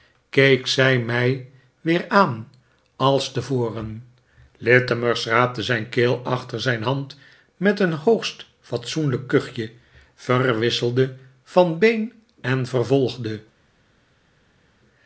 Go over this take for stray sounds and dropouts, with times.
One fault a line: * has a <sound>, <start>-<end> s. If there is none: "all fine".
all fine